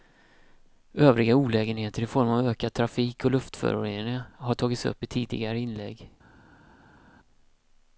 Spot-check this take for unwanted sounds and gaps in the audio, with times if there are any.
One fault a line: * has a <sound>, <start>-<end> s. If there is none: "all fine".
all fine